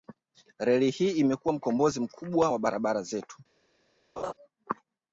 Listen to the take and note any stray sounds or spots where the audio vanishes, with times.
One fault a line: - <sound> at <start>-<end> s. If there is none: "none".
- laugh at 4.2-4.3 s